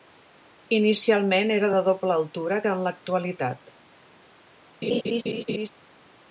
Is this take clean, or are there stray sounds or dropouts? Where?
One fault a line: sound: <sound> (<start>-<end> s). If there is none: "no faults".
sound: laugh (4.8-5.7 s)